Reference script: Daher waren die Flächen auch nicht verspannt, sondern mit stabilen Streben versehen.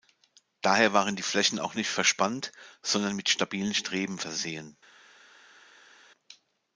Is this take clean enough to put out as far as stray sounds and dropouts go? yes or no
yes